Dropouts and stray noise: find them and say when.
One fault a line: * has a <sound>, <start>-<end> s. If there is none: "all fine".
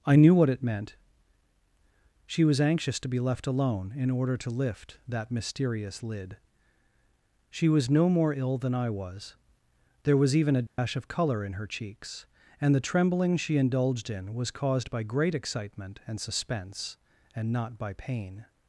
* has a dropout, 10.7-10.8 s